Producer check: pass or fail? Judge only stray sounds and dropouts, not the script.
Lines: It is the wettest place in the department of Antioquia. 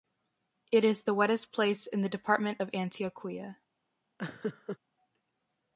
fail